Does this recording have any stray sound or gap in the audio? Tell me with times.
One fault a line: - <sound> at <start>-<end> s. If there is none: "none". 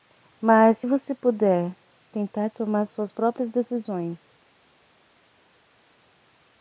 none